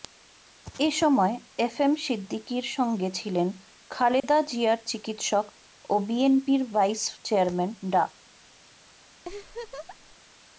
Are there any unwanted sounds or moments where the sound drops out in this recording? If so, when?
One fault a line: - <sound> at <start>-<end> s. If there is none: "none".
- dropout at 4.2-4.2 s
- laugh at 9.2-10.2 s